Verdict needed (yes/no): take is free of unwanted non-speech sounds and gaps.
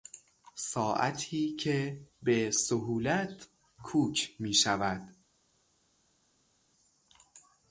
yes